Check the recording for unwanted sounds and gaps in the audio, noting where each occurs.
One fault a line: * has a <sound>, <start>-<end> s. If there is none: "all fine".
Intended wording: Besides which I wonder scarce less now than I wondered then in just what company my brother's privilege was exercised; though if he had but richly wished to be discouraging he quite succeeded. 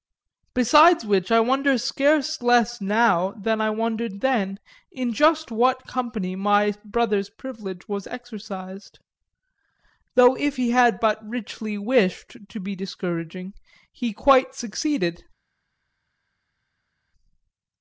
all fine